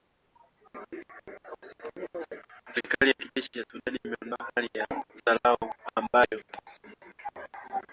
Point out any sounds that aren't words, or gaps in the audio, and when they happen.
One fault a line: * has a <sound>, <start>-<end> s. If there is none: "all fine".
all fine